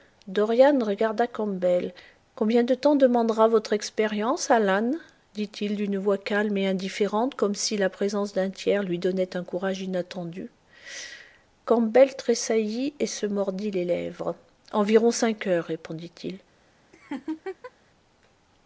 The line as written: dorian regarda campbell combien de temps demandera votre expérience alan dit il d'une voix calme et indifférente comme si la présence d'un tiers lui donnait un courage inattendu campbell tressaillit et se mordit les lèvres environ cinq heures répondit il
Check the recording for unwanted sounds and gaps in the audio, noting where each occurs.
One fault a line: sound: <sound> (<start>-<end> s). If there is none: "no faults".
sound: laugh (16.9-17.7 s)